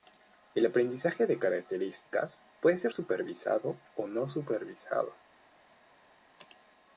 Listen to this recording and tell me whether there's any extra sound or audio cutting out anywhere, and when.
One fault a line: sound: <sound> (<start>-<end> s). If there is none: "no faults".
no faults